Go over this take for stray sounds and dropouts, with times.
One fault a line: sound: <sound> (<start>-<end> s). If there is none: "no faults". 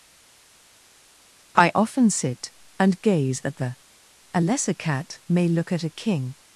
no faults